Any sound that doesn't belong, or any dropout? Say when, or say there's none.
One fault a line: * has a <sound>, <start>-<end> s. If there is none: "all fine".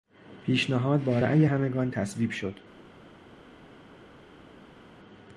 all fine